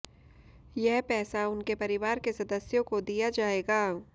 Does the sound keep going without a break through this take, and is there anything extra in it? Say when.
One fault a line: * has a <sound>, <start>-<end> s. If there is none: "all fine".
all fine